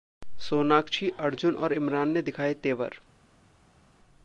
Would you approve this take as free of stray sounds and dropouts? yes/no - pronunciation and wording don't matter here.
yes